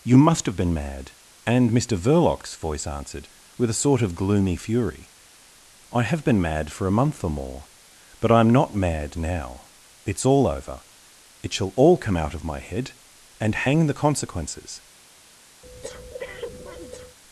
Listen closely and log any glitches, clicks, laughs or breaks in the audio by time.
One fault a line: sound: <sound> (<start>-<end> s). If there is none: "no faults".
sound: breath (15.6-17.2 s)